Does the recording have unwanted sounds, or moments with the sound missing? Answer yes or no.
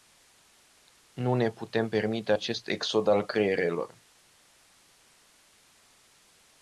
no